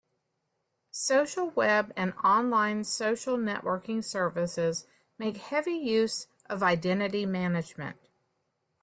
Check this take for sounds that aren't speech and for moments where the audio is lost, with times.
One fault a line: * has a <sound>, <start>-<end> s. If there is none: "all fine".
all fine